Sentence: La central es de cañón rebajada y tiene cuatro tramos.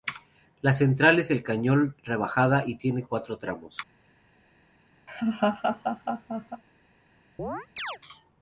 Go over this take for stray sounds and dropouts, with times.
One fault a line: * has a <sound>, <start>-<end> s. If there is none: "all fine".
* has a laugh, 5.1-6.6 s
* has a chirp, 7.4-8.0 s